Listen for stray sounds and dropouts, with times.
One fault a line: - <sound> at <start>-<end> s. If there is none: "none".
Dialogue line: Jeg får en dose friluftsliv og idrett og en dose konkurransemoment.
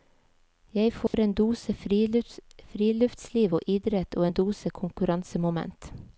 - dropout at 1.1-1.1 s